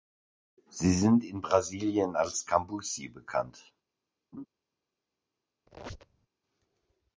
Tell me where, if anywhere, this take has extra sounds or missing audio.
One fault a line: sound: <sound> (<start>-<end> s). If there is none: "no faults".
sound: laugh (4.3-4.5 s)
sound: squeak (5.7-6.3 s)